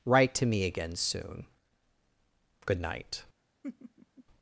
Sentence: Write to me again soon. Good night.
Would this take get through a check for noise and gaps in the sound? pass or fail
fail